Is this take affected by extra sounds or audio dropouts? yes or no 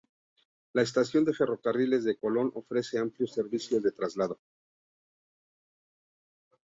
no